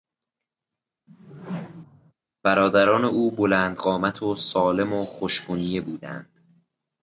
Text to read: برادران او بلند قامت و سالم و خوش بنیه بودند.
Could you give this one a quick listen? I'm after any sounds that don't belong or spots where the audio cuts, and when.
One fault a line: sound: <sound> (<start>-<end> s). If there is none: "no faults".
sound: whoosh (1.1-2.1 s)